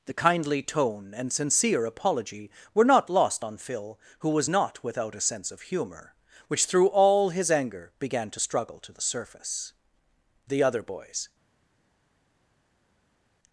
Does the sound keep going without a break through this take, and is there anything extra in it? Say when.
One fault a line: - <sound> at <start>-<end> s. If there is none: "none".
none